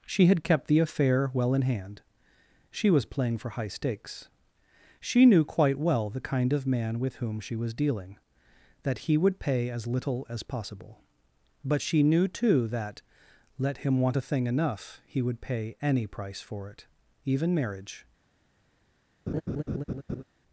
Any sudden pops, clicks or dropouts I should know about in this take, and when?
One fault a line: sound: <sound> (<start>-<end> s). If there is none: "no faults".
sound: laugh (19.3-20.2 s)